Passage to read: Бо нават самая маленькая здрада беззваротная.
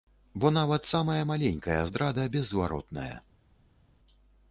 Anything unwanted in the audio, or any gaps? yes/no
no